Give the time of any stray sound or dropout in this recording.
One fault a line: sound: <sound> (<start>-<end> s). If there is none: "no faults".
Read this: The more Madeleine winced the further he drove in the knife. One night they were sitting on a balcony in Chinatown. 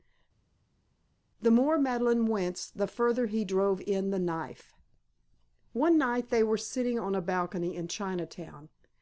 no faults